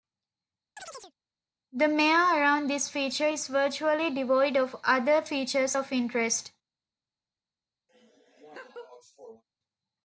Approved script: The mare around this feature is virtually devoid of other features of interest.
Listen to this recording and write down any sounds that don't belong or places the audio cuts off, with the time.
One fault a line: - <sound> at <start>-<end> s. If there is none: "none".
- chirp at 0.8-1.1 s
- laugh at 7.9-9.4 s